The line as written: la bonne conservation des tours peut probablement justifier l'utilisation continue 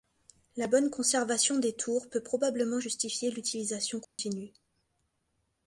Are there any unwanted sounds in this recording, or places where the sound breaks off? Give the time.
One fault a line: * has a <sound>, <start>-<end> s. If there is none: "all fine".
* has a dropout, 4.0-4.2 s